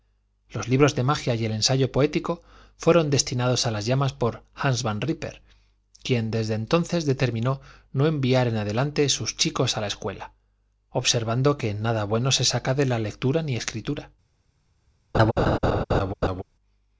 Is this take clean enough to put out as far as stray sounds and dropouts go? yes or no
no